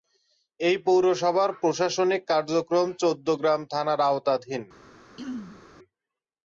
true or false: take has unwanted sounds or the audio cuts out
true